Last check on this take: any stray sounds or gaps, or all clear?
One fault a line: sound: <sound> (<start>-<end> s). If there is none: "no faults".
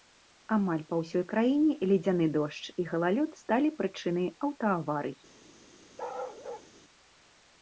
sound: bark (6.0-6.7 s)